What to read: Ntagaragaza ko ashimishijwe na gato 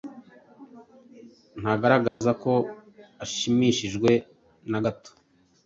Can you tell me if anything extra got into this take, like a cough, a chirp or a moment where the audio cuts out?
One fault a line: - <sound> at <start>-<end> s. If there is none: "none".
- dropout at 2.1-2.2 s